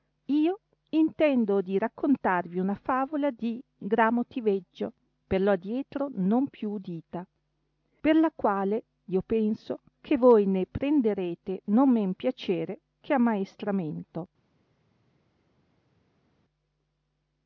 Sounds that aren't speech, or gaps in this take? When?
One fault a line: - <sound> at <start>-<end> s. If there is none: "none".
none